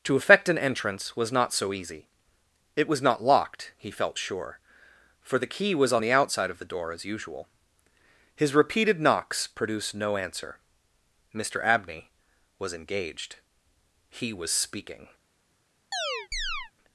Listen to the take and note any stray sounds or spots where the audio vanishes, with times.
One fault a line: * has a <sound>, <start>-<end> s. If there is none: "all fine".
* has a chirp, 15.9-16.7 s